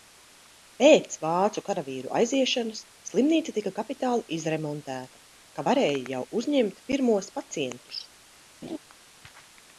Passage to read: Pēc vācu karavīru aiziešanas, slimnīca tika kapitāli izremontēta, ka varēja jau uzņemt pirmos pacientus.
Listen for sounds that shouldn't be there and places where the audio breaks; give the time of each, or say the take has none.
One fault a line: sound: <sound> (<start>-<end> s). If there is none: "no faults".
sound: laugh (8.6-8.8 s)